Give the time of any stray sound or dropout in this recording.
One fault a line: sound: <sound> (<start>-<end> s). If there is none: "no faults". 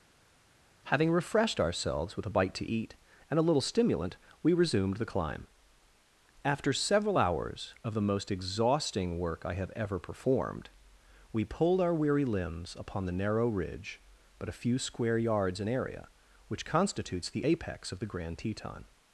no faults